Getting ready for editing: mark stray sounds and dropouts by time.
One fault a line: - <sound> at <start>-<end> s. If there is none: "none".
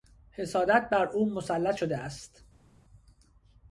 none